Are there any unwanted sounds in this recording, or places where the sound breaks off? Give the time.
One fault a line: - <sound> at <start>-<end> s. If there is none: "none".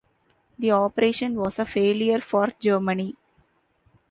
none